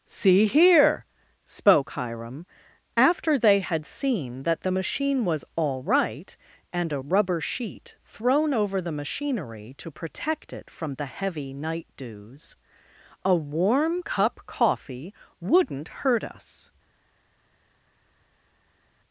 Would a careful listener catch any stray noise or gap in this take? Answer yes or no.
no